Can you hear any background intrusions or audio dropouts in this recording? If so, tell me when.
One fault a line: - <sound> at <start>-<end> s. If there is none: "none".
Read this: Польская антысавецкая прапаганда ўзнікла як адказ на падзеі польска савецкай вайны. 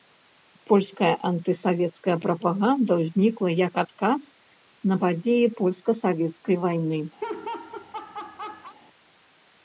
- laugh at 7.2-8.8 s